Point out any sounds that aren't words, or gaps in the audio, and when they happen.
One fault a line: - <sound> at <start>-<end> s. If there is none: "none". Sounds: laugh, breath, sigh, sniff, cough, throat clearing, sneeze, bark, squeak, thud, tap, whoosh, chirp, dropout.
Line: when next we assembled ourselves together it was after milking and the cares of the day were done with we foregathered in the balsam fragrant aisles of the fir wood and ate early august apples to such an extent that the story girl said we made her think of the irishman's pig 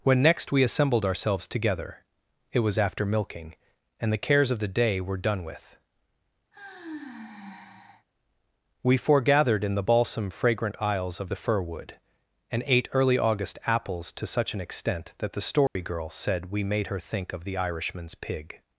- sigh at 6.5-8.1 s
- dropout at 15.7-15.8 s